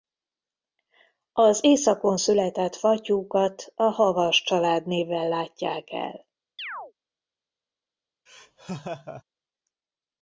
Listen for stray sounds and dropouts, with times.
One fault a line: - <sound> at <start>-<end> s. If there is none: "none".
- chirp at 6.6-6.9 s
- laugh at 8.3-9.2 s